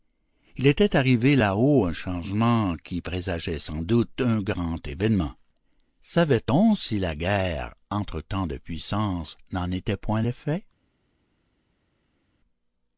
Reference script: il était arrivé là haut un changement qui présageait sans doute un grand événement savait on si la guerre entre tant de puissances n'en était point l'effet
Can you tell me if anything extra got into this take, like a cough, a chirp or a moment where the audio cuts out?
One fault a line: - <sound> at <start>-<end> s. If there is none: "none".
none